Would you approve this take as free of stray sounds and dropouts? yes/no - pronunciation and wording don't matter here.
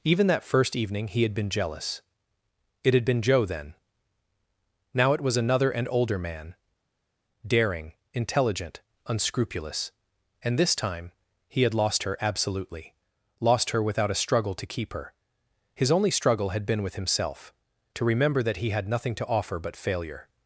yes